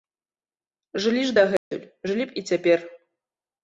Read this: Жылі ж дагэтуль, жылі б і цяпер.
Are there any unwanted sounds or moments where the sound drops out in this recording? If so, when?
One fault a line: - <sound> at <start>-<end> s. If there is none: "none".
- dropout at 1.6-1.7 s